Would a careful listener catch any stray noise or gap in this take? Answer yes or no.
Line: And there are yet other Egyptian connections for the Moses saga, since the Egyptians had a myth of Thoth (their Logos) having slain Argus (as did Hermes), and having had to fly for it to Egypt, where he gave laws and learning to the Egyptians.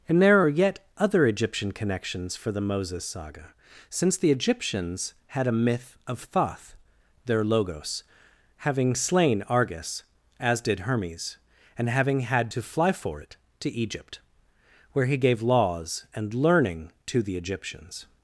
no